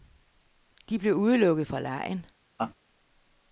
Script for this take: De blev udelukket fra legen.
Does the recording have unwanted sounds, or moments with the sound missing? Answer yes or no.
yes